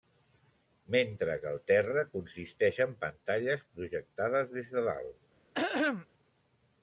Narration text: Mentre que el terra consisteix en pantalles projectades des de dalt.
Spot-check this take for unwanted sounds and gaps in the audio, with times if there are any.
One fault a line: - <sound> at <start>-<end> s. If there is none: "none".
- throat clearing at 5.5-6.1 s